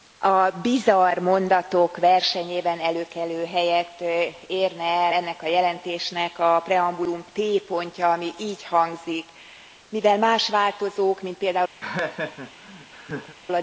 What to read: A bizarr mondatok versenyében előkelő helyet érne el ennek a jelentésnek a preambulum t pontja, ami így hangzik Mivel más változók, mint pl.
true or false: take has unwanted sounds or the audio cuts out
true